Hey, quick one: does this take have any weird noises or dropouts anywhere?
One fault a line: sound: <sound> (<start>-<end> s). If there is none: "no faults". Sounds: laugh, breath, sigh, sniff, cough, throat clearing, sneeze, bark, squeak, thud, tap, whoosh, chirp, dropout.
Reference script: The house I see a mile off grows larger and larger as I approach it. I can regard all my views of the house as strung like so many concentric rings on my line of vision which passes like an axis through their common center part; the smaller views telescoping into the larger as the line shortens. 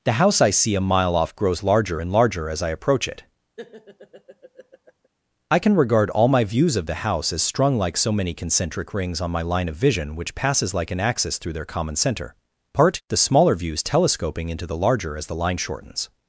sound: laugh (3.6-5.1 s)